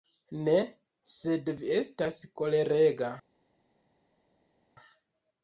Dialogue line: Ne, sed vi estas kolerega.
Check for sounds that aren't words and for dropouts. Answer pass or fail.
pass